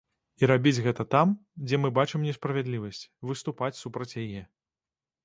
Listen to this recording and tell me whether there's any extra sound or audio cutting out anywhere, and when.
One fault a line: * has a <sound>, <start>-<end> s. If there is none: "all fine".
all fine